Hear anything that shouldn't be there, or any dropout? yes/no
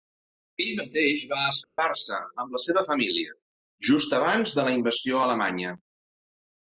yes